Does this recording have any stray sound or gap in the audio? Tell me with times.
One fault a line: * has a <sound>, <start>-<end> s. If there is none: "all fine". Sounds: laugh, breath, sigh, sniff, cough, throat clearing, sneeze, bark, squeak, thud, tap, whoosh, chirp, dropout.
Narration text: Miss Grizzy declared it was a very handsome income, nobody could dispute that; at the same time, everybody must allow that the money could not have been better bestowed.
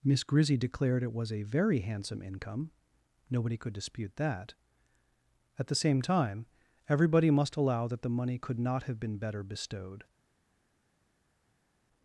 all fine